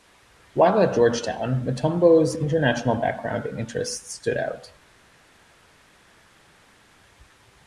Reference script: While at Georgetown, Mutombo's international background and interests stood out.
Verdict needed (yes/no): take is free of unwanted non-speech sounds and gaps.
yes